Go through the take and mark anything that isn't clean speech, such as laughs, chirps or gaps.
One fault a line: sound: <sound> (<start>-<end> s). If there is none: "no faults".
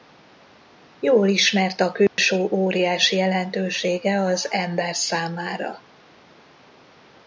sound: dropout (2.1-2.2 s)